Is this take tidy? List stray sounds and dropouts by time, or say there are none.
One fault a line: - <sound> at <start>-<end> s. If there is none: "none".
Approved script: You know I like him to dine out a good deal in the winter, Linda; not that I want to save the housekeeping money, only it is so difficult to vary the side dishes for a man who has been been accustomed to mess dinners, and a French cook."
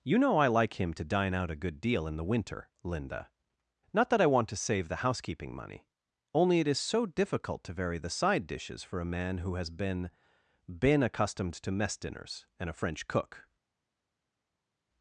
none